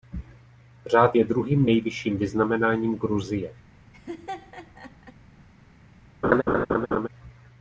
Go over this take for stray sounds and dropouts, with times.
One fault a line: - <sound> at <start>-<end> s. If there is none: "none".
- laugh at 3.9-5.1 s
- laugh at 6.2-7.1 s